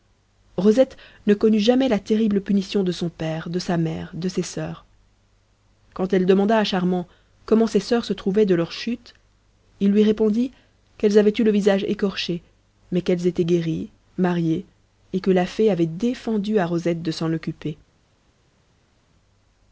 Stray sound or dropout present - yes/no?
no